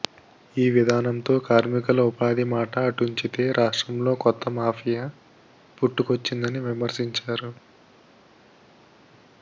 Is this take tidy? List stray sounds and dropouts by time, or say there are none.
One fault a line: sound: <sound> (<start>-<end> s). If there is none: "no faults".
no faults